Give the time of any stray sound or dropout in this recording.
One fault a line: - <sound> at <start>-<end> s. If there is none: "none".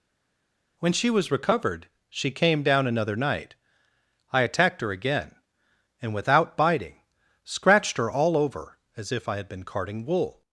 none